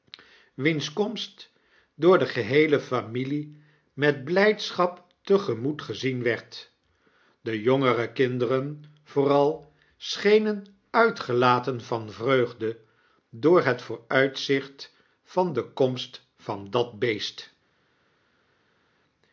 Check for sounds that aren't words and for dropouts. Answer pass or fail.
pass